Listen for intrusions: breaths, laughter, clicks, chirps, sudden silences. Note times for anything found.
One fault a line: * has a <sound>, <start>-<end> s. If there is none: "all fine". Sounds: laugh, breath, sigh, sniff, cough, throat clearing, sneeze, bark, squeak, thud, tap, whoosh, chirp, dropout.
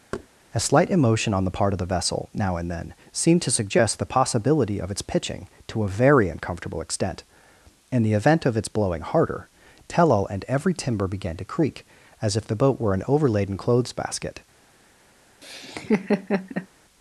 * has a thud, 0.1-0.3 s
* has a laugh, 15.4-16.7 s